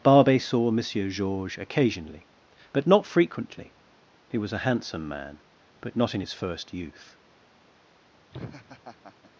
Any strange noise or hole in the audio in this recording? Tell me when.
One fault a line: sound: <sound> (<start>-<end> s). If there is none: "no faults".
sound: laugh (8.3-9.3 s)